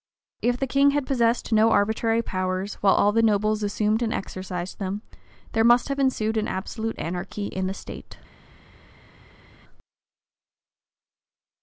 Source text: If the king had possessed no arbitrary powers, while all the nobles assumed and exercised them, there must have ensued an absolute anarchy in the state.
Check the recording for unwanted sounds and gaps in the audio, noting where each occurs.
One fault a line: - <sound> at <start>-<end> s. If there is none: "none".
none